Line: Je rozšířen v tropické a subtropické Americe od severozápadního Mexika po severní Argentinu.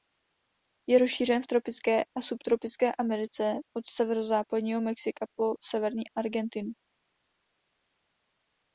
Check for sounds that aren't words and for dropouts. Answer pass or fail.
pass